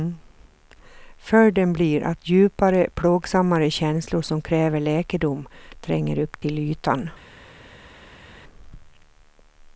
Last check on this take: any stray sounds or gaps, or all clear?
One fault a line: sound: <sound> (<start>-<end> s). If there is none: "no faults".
no faults